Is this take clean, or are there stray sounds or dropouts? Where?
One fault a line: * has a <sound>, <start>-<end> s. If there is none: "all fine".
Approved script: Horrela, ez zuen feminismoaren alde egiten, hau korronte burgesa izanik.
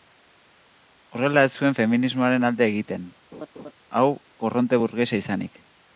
* has a laugh, 3.3-3.7 s